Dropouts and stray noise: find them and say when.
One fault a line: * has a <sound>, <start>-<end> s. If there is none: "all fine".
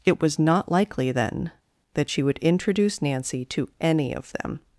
all fine